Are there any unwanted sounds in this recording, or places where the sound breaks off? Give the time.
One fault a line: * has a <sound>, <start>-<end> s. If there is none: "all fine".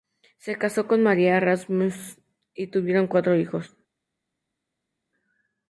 all fine